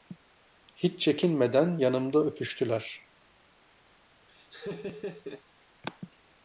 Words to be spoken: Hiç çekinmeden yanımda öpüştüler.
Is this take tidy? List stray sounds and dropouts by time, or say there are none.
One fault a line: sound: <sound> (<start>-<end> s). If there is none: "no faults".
sound: laugh (4.3-5.4 s)